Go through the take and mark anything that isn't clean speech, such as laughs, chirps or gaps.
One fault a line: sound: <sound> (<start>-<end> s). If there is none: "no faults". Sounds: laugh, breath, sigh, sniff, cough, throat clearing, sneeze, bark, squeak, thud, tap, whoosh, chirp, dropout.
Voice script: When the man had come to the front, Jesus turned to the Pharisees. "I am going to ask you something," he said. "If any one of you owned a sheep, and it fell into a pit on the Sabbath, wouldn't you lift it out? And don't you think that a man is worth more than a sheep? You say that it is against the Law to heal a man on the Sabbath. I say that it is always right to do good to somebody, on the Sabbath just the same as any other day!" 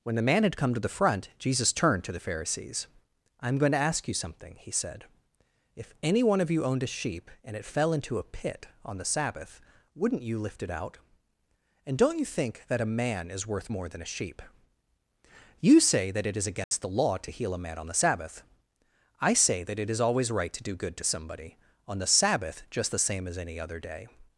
sound: dropout (16.6-16.7 s)